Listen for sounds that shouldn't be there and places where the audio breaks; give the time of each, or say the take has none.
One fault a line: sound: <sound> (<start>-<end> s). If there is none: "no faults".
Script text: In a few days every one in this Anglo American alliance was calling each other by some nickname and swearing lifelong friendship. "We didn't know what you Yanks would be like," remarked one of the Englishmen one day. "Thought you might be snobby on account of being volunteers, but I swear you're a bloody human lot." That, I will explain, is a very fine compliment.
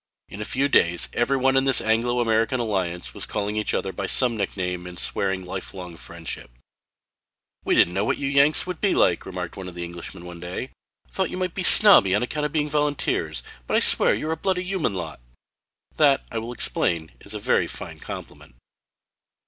no faults